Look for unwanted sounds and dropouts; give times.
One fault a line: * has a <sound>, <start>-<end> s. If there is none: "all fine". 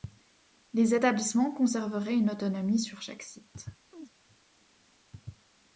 * has a chirp, 3.9-4.1 s